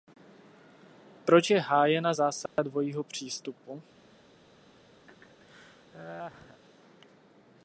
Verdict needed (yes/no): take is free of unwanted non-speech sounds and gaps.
no